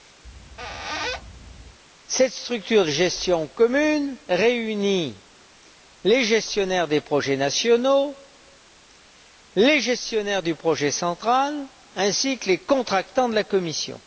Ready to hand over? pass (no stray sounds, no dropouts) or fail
fail